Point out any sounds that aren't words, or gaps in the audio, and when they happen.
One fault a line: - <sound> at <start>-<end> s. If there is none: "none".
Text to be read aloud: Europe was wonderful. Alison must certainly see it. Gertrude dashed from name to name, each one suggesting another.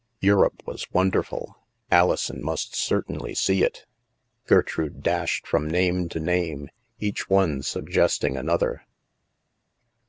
none